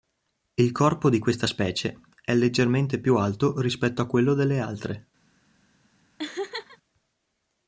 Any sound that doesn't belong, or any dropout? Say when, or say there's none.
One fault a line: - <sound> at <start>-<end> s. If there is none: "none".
- laugh at 6.2-6.8 s